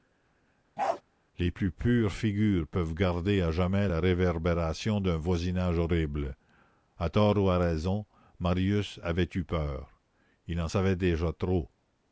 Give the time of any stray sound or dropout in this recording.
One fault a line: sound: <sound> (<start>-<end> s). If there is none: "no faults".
sound: bark (0.8-1.0 s)